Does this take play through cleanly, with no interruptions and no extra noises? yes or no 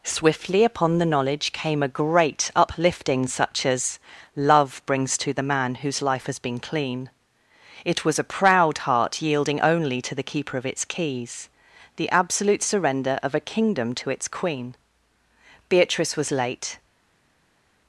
yes